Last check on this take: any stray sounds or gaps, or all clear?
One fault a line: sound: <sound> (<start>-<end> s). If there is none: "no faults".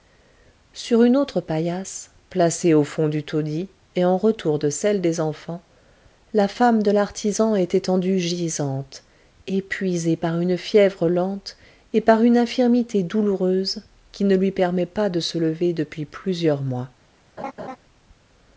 sound: laugh (17.4-17.8 s)